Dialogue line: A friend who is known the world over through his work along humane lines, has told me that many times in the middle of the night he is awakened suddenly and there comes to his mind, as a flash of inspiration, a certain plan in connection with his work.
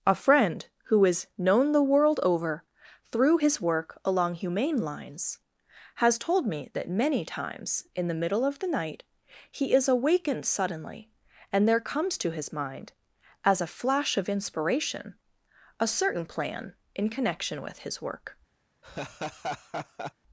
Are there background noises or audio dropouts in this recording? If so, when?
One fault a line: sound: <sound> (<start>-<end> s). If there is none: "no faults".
sound: laugh (18.8-20.1 s)